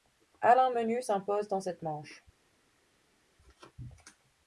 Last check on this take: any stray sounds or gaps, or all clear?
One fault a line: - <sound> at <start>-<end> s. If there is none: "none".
none